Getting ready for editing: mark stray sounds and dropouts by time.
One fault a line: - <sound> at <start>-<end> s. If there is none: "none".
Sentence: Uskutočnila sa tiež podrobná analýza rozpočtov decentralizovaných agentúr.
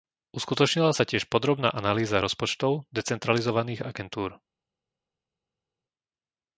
none